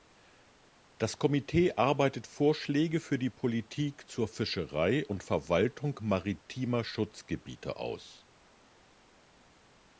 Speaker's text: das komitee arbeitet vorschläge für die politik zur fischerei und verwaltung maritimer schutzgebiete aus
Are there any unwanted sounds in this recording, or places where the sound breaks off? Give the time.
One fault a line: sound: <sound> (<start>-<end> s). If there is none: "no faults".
no faults